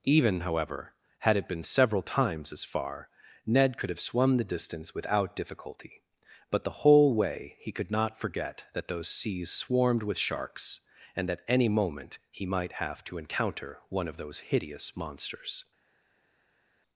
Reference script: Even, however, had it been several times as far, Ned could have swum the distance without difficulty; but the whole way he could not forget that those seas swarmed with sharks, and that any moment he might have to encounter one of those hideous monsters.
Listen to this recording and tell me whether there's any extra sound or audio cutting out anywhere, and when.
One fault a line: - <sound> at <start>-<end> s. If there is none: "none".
none